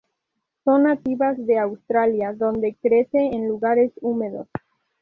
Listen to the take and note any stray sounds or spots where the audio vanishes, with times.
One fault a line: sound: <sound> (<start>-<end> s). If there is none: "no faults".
no faults